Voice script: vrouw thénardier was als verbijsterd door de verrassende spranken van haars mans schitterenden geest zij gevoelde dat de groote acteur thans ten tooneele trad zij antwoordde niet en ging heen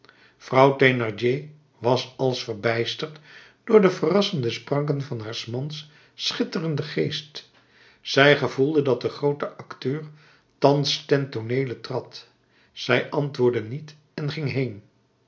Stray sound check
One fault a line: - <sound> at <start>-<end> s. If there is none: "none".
none